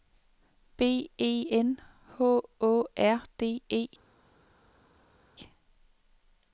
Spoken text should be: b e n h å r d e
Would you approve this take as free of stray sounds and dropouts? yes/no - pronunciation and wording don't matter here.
yes